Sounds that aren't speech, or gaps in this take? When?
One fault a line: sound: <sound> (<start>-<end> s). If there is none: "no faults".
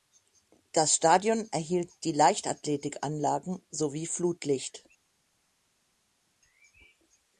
no faults